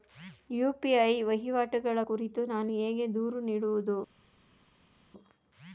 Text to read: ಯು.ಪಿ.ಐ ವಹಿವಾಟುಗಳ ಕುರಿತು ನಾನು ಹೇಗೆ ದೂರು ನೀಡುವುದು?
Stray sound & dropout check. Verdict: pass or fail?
pass